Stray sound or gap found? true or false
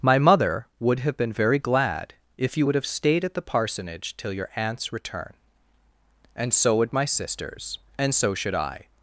false